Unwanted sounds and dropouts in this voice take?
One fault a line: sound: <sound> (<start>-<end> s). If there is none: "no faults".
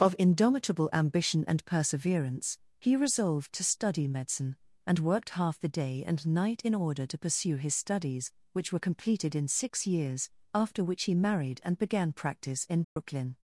sound: dropout (12.8-13.0 s)